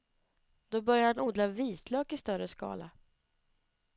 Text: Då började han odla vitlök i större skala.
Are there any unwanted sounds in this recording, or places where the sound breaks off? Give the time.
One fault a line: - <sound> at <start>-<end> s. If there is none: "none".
none